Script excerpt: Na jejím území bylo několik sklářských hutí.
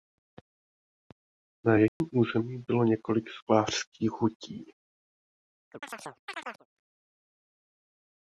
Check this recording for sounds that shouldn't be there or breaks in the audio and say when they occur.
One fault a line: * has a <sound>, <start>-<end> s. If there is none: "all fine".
* has a dropout, 1.9-2.0 s
* has a chirp, 5.7-6.7 s